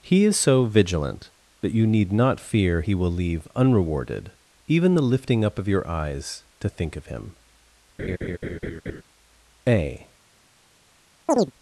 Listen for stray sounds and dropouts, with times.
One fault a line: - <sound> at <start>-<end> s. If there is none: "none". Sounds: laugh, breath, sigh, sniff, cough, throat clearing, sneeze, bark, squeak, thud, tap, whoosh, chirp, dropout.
- laugh at 8.0-9.0 s
- chirp at 11.3-11.5 s